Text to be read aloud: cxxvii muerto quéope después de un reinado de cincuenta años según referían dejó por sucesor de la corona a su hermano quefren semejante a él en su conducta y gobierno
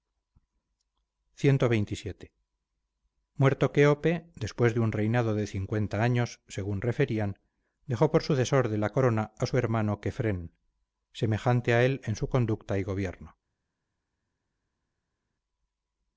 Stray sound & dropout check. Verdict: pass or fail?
pass